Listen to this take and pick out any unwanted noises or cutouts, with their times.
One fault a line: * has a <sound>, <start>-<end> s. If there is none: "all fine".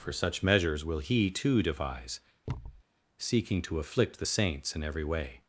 * has a thud, 2.5-2.8 s